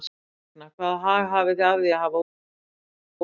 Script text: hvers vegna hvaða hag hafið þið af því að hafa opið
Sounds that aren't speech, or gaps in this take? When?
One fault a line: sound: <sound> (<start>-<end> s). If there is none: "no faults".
no faults